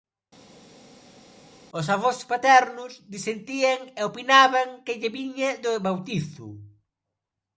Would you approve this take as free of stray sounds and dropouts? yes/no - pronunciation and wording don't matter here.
yes